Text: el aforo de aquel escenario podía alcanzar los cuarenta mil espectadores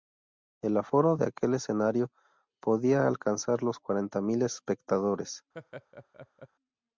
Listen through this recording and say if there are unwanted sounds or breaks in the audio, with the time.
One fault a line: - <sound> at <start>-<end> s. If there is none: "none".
- laugh at 5.5-6.5 s